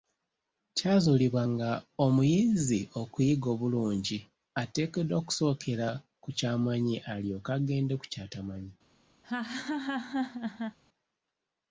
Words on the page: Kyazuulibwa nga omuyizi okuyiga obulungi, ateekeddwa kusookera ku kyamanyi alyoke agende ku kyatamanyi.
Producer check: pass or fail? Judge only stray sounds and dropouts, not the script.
fail